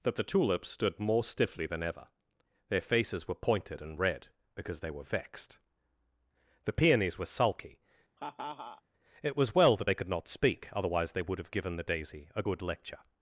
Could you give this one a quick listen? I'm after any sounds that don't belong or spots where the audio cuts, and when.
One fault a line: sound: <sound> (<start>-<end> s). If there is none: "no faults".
sound: laugh (8.2-8.8 s)